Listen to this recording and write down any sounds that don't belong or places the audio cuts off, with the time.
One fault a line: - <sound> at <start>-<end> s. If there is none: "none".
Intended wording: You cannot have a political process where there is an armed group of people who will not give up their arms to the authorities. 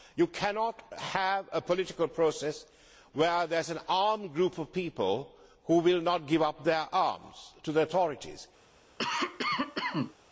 - cough at 9.0-10.1 s